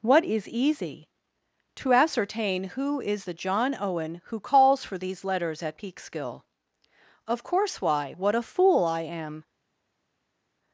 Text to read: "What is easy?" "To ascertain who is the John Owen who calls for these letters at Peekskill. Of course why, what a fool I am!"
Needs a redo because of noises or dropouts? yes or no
no